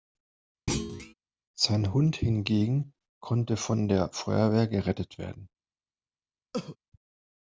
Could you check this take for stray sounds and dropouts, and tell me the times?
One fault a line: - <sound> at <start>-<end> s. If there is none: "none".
- thud at 0.7-1.1 s
- cough at 6.5-6.8 s